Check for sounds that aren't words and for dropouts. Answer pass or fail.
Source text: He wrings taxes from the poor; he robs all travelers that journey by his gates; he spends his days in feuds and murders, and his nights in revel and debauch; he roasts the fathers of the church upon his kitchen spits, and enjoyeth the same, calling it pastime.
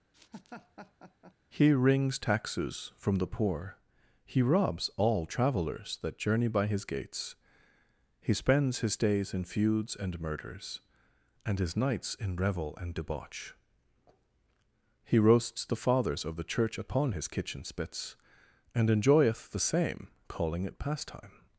fail